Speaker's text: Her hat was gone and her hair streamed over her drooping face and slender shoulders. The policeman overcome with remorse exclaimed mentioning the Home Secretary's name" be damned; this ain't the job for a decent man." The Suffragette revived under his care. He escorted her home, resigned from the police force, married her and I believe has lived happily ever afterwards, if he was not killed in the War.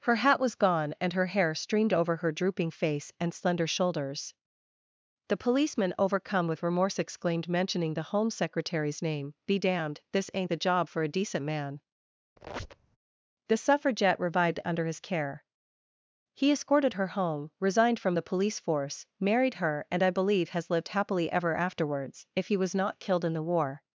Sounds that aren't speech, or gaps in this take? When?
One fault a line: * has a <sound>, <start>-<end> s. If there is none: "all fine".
* has a squeak, 12.4-13.0 s